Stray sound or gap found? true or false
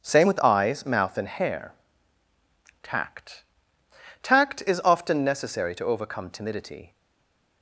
false